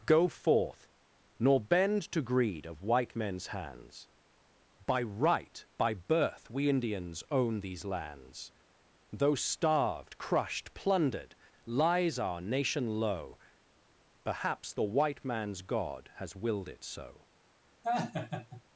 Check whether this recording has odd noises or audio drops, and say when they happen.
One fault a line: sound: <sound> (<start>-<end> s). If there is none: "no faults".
sound: laugh (17.8-18.6 s)